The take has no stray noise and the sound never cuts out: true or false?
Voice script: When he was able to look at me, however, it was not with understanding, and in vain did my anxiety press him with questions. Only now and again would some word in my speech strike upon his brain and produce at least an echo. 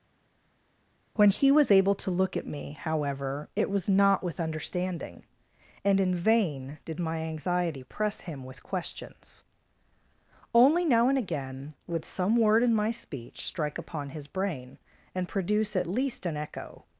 true